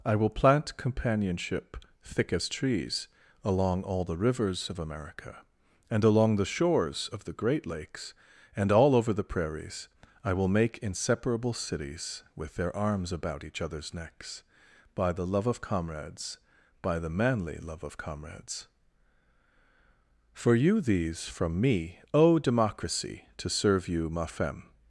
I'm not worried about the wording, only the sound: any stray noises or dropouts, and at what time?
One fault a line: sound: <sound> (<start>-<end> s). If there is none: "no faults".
no faults